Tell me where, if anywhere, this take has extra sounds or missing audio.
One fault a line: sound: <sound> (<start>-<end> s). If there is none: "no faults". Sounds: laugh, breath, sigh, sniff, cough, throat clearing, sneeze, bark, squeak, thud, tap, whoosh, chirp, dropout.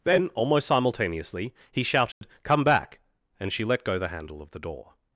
sound: dropout (2.1-2.2 s)